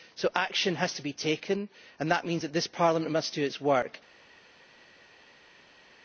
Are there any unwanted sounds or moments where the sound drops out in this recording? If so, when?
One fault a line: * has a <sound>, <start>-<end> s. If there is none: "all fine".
all fine